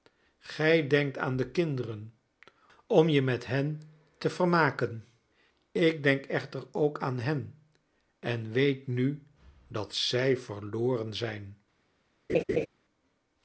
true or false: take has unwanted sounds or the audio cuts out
true